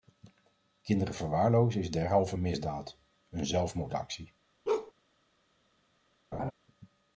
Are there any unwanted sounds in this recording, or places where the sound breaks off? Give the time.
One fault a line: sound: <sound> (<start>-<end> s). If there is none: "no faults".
sound: bark (4.7-4.9 s)
sound: laugh (6.3-6.5 s)